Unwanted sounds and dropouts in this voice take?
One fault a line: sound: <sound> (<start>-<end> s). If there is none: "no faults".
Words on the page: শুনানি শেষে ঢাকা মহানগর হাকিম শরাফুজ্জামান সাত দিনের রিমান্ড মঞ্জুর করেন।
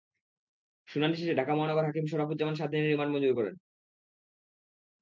no faults